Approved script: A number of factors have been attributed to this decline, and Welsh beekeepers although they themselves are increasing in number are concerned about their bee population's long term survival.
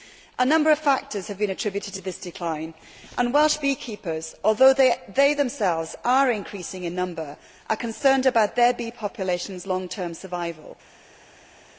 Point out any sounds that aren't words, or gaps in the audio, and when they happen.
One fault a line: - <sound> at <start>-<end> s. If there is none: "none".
none